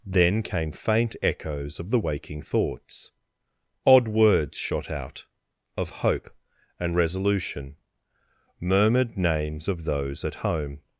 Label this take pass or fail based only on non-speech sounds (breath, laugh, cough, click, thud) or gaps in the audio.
pass